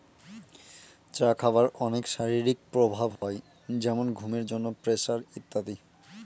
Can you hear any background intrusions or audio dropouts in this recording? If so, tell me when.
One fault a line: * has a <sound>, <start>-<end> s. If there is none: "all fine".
* has a dropout, 3.2-3.2 s